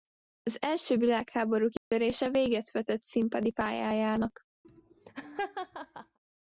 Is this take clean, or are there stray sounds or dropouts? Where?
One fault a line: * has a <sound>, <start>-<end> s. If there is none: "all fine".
* has a dropout, 1.8-1.9 s
* has a laugh, 4.6-6.2 s